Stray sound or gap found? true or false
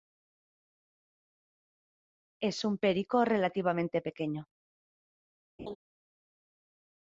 true